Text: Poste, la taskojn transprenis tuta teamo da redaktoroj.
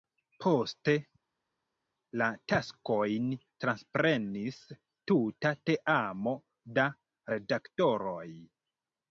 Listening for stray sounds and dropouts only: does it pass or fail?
pass